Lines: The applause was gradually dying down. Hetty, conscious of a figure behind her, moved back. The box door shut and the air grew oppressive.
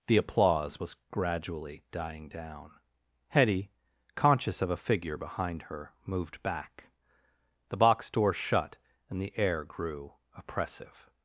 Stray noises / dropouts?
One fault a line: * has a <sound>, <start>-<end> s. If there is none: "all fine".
all fine